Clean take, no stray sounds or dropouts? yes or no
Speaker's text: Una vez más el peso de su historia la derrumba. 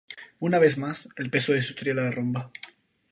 yes